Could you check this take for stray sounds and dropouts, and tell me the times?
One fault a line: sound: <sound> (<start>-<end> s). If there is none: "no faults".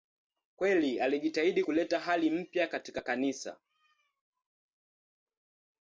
no faults